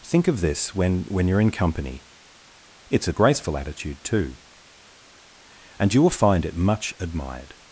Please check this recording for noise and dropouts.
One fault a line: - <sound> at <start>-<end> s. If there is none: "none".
none